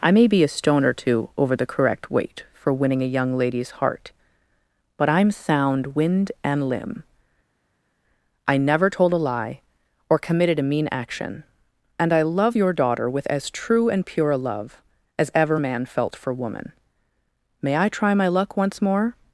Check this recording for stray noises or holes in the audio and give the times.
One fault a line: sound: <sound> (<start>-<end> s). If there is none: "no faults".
no faults